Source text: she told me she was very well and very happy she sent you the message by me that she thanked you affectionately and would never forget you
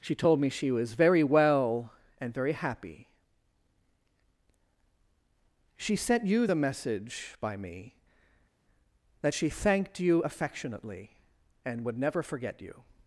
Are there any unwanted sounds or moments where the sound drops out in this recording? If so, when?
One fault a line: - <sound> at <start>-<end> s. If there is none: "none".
none